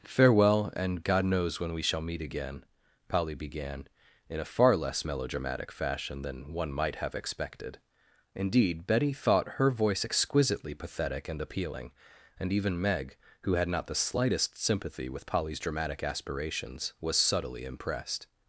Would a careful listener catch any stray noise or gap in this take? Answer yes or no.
no